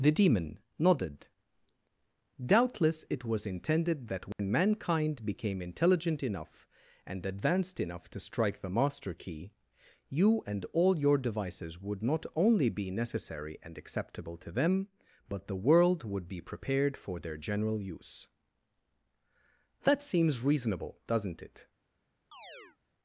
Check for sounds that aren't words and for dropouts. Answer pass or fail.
fail